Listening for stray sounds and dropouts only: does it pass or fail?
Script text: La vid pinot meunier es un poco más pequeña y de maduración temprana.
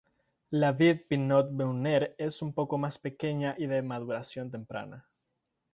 pass